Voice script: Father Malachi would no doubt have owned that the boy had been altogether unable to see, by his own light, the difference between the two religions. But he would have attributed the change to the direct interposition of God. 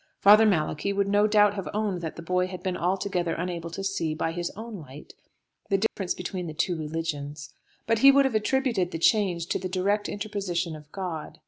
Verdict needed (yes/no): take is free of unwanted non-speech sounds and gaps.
no